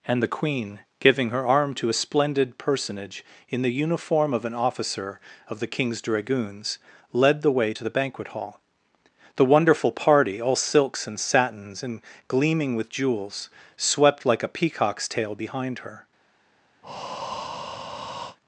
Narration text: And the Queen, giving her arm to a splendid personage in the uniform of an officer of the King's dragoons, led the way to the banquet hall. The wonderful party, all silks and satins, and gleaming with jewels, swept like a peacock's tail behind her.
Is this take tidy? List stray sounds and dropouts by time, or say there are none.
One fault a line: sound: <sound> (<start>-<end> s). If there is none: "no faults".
sound: breath (16.8-18.4 s)